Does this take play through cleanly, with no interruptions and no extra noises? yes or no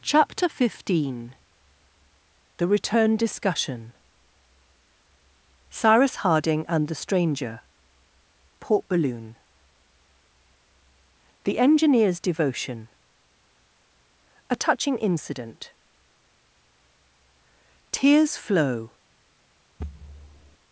no